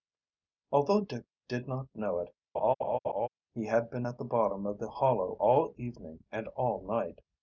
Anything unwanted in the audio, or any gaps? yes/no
yes